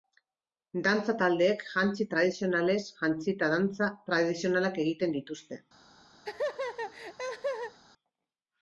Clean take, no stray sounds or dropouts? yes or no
no